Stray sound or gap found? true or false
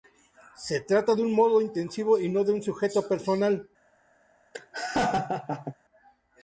true